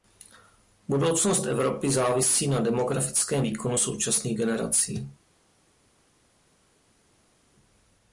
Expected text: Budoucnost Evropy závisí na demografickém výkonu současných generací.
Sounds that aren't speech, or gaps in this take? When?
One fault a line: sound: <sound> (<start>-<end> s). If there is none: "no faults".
no faults